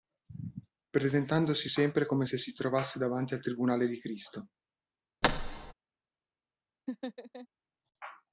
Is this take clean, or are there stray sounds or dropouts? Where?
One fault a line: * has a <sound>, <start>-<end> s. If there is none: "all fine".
* has a thud, 5.2-5.7 s
* has a laugh, 6.9-7.5 s